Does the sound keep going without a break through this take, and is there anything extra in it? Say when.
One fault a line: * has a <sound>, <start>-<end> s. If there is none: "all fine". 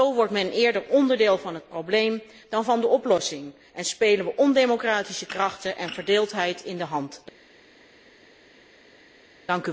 all fine